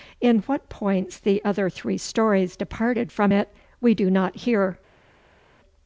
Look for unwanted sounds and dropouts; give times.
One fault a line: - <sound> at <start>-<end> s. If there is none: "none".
none